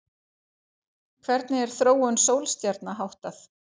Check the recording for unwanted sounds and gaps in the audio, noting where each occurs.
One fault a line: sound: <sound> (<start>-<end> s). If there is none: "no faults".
no faults